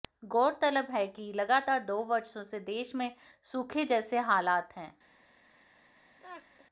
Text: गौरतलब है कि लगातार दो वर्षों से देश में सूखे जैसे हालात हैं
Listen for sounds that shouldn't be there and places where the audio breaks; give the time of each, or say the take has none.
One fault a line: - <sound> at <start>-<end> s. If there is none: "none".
- laugh at 6.2-6.7 s